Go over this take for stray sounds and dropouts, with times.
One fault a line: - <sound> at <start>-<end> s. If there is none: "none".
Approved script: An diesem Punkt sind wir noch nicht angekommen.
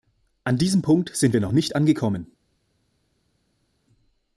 none